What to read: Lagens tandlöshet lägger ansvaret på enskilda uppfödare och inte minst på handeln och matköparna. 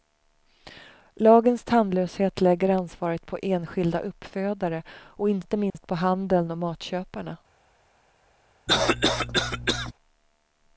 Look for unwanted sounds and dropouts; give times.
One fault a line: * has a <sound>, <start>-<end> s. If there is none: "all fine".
* has a dropout, 5.7-5.7 s
* has a cough, 8.7-9.9 s